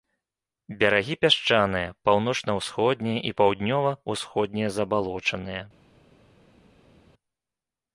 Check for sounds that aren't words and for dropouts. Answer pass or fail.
pass